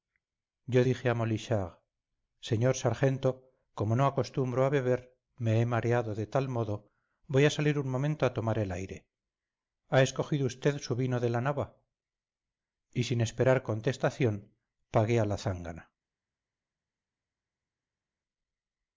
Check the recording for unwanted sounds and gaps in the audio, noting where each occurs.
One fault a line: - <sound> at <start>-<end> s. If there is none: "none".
none